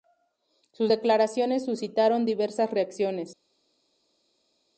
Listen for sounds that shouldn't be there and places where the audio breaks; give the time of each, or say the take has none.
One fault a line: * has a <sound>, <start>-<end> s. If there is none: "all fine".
all fine